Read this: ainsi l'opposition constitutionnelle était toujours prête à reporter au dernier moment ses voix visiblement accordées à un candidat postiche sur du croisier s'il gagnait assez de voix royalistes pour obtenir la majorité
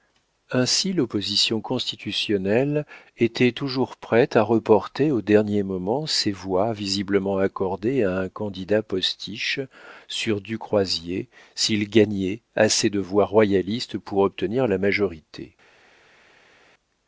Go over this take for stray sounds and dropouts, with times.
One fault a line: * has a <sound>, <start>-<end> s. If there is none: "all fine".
all fine